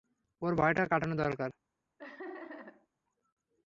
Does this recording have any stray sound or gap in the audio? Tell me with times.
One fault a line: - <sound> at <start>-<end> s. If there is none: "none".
- laugh at 2.0-2.9 s